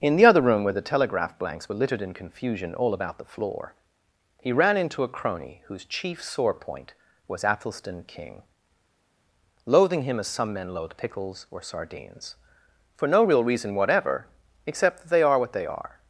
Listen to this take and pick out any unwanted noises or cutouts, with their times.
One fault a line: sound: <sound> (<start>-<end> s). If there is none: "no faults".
no faults